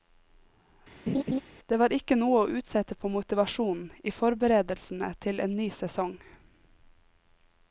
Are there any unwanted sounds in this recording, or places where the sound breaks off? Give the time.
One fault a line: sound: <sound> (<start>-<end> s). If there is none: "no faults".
sound: laugh (1.1-1.4 s)